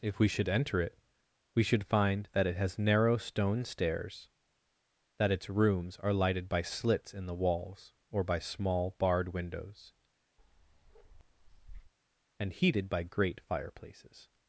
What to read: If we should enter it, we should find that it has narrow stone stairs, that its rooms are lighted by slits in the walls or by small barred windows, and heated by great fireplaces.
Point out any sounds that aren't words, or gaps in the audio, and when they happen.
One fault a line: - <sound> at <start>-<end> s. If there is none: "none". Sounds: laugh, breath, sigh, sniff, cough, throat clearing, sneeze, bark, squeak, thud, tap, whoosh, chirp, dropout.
- bark at 10.4-11.9 s